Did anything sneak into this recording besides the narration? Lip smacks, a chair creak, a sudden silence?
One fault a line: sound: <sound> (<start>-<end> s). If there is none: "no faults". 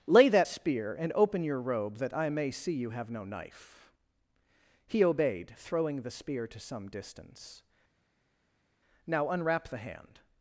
no faults